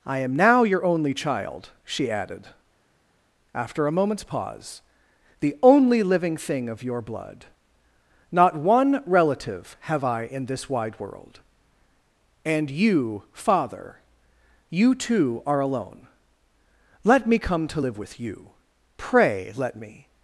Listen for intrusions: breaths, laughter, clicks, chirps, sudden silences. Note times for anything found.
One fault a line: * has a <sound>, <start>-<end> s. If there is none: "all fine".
all fine